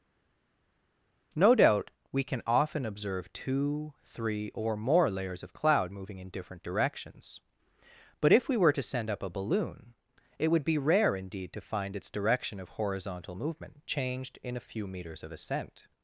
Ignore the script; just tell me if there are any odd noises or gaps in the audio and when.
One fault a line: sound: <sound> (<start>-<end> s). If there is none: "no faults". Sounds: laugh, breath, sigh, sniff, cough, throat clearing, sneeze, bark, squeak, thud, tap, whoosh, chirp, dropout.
no faults